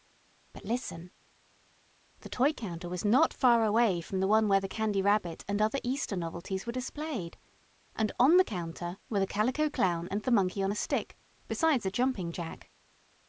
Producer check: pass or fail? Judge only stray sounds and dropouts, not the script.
pass